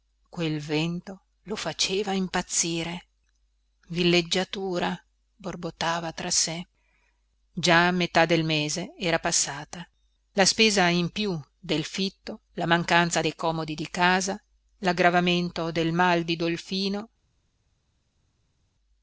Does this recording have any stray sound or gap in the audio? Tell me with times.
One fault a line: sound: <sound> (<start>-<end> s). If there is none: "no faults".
no faults